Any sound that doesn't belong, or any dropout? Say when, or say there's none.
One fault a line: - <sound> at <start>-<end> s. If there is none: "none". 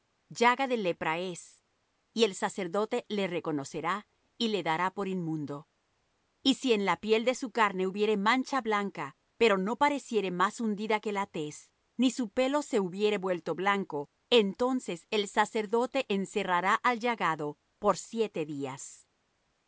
none